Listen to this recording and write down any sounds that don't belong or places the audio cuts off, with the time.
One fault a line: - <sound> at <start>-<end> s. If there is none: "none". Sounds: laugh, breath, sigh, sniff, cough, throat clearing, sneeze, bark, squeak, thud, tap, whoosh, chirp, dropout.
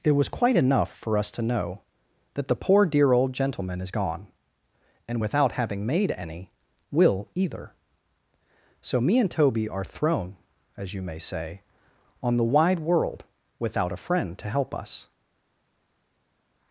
none